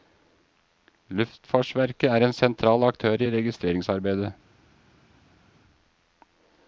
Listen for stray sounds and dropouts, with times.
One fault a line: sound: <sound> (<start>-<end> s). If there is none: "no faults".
no faults